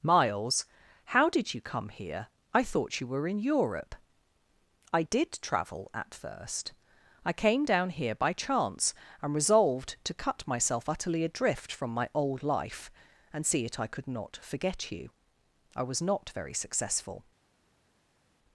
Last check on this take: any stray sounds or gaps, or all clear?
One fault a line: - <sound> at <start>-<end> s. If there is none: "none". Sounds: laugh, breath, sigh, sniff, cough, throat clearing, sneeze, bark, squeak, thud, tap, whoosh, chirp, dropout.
none